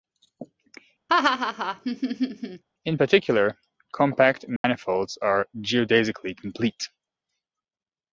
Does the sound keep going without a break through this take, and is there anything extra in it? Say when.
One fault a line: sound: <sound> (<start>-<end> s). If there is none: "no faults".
sound: laugh (1.1-2.6 s)
sound: dropout (4.6-4.6 s)